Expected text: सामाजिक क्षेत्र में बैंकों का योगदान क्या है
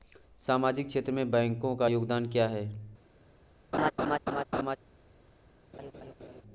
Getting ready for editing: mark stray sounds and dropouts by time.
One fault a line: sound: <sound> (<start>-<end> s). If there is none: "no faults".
sound: laugh (3.7-4.8 s)
sound: laugh (5.7-6.4 s)